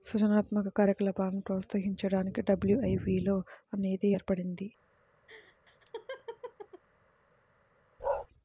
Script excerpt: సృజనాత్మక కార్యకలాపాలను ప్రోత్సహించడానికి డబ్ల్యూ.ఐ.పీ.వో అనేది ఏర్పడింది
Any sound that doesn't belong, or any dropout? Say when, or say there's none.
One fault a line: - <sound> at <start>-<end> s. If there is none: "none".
- laugh at 5.3-6.8 s
- bark at 8.0-8.3 s